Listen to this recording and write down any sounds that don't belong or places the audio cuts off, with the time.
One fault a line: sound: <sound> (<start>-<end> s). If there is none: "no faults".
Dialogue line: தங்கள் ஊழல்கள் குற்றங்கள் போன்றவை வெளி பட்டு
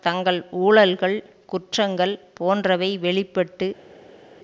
no faults